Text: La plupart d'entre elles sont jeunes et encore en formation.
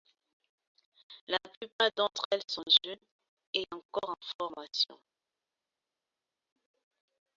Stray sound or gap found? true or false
false